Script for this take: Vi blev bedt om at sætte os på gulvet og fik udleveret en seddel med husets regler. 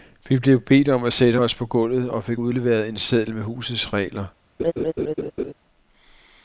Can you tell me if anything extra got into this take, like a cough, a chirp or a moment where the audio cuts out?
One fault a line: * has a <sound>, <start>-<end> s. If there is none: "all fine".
* has a laugh, 4.6-5.5 s